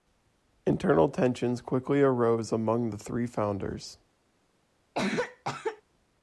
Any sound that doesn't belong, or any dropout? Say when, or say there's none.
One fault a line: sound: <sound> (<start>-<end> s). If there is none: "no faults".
sound: cough (4.9-5.8 s)